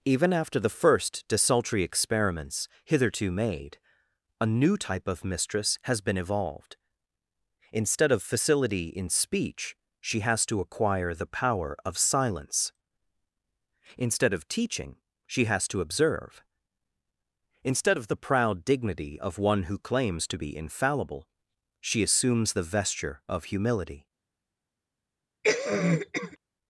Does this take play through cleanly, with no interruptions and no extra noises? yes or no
no